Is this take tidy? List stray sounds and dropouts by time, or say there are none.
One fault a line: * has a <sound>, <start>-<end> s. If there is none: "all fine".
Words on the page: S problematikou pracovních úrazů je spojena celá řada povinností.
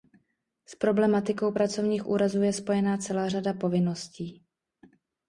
all fine